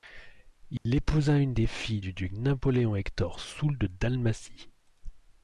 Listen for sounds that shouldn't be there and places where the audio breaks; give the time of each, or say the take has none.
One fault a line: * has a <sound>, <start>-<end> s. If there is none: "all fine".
* has a dropout, 0.8-0.9 s